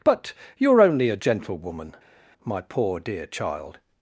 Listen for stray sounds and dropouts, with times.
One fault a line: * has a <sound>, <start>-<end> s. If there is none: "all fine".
all fine